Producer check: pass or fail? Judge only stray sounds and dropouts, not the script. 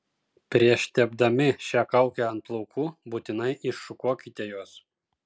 pass